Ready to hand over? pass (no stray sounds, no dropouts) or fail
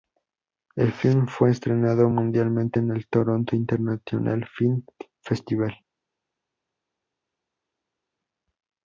pass